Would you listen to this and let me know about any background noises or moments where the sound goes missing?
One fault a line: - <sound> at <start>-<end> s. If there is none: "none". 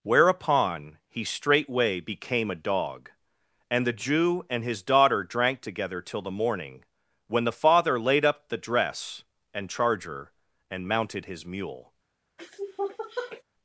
- sniff at 12.4-13.4 s